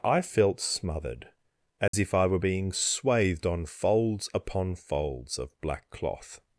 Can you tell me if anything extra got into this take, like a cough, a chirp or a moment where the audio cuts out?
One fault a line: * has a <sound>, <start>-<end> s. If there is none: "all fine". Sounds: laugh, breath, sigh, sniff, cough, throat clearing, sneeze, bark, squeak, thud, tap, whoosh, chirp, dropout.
* has a dropout, 1.9-1.9 s